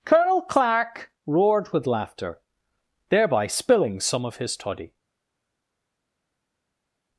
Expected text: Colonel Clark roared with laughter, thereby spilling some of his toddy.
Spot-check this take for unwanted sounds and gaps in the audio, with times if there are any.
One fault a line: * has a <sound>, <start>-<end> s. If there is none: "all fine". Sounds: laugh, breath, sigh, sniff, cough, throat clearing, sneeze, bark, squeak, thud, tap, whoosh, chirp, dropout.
all fine